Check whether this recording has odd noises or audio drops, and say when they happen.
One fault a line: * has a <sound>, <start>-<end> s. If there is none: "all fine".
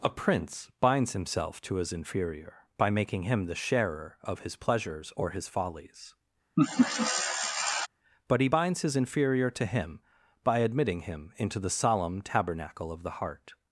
* has a laugh, 6.6-7.9 s